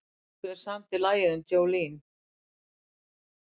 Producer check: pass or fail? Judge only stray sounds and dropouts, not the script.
pass